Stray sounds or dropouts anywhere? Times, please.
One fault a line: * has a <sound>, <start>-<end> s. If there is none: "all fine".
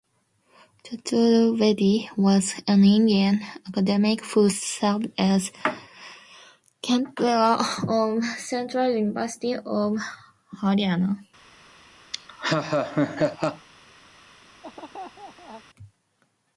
* has a laugh, 12.1-13.7 s
* has a laugh, 14.6-15.6 s